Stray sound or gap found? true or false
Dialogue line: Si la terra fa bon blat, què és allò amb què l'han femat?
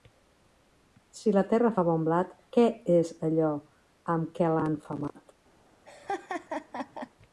true